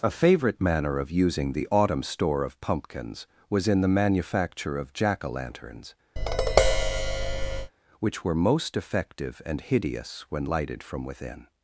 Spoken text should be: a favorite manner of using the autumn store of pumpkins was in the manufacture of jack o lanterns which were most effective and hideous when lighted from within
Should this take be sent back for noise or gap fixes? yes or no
yes